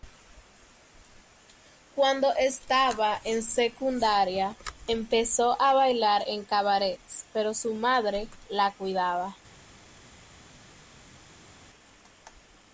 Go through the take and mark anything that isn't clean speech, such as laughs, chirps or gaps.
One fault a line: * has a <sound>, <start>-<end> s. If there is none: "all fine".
all fine